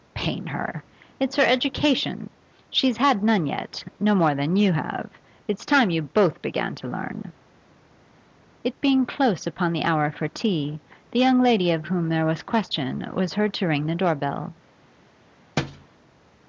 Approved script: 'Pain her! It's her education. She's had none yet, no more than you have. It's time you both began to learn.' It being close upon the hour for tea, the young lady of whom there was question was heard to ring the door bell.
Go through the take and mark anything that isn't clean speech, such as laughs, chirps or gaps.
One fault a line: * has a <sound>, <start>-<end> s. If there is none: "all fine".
* has a thud, 15.6-15.9 s